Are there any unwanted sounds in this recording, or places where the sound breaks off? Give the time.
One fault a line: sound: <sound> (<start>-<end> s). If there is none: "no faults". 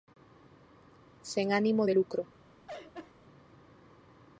sound: laugh (2.7-3.1 s)